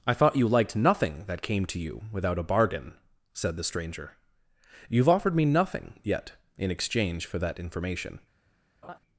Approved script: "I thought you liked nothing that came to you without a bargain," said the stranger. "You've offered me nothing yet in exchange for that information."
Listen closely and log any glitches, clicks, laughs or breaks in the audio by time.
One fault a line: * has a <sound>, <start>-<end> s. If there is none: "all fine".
* has a laugh, 8.8-9.0 s